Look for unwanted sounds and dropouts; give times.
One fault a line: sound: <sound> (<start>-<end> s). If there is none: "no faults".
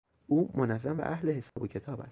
sound: dropout (1.5-1.6 s)